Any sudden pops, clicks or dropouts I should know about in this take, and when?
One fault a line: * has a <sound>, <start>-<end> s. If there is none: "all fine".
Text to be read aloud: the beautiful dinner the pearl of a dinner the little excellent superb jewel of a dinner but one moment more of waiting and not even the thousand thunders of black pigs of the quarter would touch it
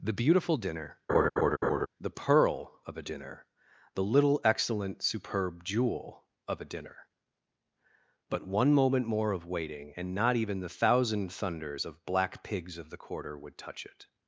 * has a laugh, 1.1-1.9 s